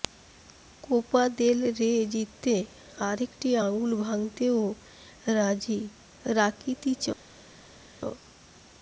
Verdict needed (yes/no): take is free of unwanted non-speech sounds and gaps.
yes